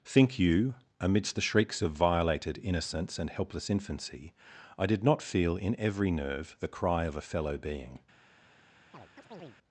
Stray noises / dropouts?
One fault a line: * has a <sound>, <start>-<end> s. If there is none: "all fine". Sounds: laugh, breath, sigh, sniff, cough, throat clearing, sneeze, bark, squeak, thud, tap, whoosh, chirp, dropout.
* has a chirp, 8.9-9.6 s